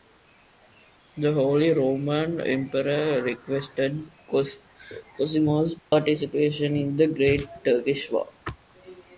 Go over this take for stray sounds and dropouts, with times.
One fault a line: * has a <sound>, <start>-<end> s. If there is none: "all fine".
* has a dropout, 5.8-5.9 s